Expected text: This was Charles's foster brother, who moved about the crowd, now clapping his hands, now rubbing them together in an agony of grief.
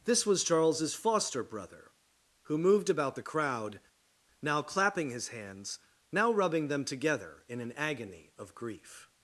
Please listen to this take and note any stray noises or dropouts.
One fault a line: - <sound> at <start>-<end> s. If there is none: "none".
none